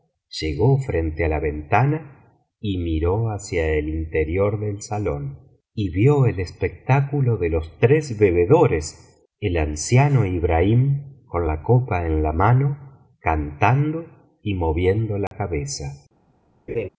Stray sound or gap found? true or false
true